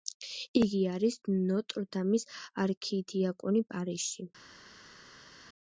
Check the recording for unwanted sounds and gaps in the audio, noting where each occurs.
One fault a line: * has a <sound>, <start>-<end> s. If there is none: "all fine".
all fine